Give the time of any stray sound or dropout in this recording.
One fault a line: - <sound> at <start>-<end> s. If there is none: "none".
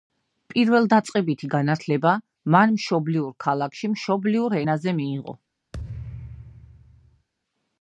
- thud at 5.7-7.3 s